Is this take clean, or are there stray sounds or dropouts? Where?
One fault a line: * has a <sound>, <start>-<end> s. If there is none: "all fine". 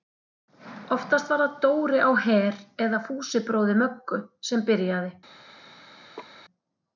* has a laugh, 6.2-6.4 s